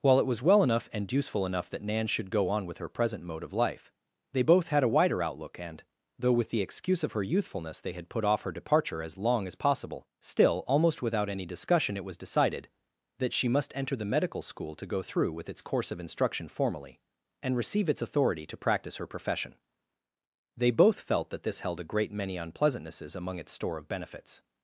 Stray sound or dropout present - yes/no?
no